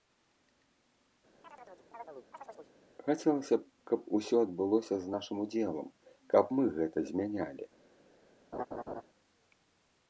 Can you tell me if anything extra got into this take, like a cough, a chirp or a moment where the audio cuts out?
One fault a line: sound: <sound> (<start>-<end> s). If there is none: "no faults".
sound: chirp (1.4-2.7 s)
sound: laugh (8.5-9.0 s)